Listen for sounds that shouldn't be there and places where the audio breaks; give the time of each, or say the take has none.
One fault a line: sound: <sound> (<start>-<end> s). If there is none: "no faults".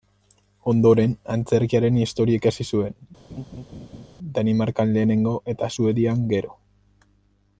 sound: laugh (3.3-4.1 s)